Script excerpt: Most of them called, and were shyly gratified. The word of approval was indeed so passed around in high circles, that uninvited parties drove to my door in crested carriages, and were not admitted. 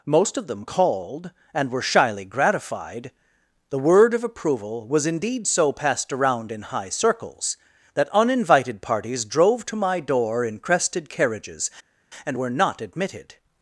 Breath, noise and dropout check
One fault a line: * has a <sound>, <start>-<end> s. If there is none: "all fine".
all fine